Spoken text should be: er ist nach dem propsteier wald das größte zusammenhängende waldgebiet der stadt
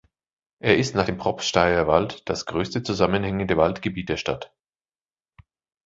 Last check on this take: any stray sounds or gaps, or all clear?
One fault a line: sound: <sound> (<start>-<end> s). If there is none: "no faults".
no faults